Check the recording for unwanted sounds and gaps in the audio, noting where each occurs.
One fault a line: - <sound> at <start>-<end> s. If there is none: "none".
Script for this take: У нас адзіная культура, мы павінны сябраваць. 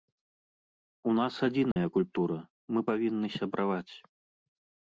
- dropout at 1.7-1.8 s